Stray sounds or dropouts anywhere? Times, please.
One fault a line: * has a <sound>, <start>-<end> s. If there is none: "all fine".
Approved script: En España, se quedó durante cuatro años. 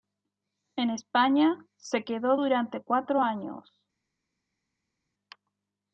all fine